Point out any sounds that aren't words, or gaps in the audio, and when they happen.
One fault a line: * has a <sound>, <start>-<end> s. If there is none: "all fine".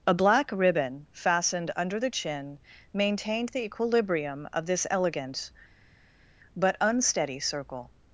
all fine